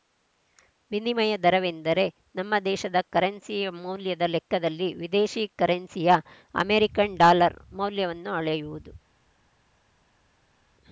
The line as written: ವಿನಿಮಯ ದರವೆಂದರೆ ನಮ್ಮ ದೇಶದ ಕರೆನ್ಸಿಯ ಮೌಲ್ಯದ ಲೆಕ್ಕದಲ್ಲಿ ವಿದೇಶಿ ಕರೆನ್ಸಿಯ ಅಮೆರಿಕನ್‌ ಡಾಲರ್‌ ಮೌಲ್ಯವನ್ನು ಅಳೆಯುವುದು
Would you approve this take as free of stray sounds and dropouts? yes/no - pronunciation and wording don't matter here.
yes